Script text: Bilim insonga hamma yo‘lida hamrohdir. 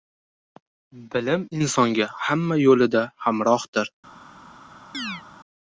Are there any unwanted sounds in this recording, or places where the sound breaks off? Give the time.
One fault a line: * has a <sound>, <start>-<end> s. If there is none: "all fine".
* has a chirp, 4.9-5.2 s